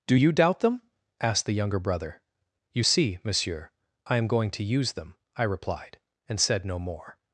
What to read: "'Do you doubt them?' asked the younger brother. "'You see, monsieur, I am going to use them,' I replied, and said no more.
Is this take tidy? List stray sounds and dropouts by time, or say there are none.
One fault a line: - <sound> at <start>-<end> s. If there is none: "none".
none